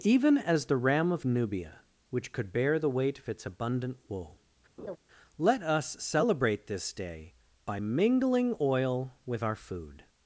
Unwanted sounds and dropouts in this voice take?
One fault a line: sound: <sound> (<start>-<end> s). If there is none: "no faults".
sound: laugh (4.8-5.0 s)